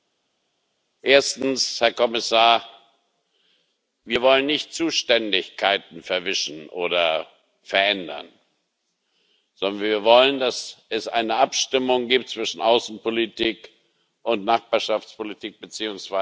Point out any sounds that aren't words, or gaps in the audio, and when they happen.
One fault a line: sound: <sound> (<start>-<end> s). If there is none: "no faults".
no faults